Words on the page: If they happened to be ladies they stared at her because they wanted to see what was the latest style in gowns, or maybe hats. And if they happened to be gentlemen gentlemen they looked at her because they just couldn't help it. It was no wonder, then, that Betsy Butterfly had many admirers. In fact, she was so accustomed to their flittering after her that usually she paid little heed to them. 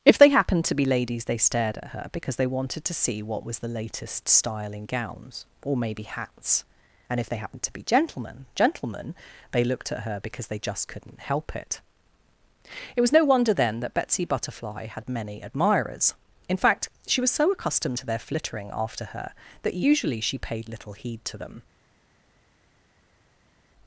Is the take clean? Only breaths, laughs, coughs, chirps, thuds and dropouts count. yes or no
yes